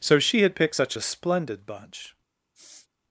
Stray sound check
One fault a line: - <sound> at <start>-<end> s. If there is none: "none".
- sniff at 2.5-2.9 s